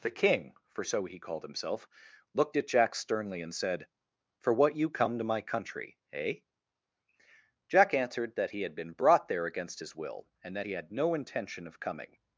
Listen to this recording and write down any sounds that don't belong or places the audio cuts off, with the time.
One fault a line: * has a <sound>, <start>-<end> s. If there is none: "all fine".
all fine